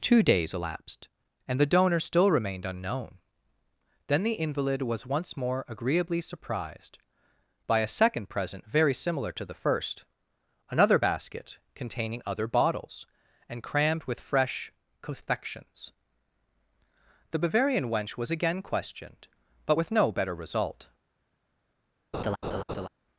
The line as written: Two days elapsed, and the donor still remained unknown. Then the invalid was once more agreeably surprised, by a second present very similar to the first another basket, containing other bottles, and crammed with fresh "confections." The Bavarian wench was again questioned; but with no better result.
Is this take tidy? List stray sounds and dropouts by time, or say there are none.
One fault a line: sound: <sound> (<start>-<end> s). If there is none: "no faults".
sound: laugh (22.1-22.9 s)